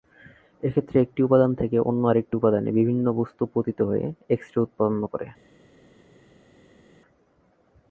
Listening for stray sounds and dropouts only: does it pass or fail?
pass